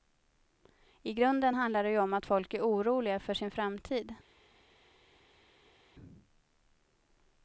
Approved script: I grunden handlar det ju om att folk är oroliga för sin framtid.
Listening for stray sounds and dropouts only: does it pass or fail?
pass